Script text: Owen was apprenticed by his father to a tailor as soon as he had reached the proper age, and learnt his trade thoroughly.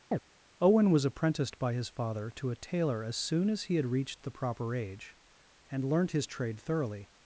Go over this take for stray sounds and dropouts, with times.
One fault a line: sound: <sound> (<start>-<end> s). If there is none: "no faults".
sound: chirp (0.1-0.2 s)